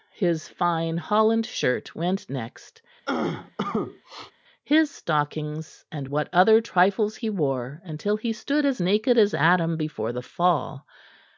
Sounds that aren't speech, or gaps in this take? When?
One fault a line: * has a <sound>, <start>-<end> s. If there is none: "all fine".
* has a cough, 3.1-4.3 s